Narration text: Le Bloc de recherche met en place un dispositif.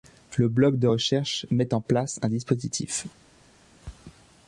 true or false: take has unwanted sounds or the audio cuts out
false